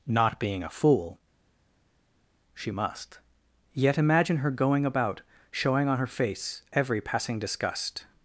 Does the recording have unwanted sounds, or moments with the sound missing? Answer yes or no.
no